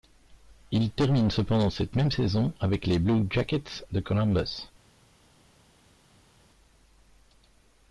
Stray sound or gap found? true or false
false